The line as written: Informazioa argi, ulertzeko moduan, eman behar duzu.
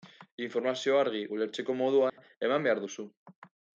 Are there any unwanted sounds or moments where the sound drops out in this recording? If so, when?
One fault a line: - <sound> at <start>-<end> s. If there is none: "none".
- dropout at 2.1-2.2 s